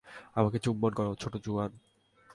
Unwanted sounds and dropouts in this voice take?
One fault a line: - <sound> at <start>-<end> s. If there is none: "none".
none